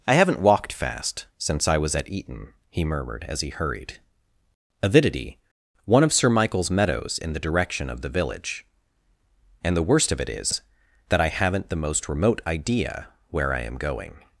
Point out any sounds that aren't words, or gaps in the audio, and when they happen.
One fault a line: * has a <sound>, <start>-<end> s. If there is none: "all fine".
all fine